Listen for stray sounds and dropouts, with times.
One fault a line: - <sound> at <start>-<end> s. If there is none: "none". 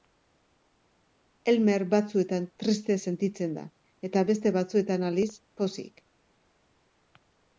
none